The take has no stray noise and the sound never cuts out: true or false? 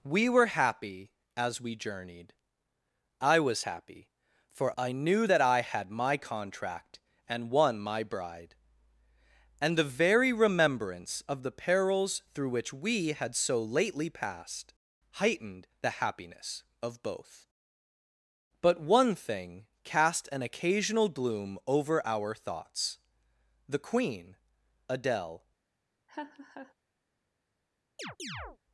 false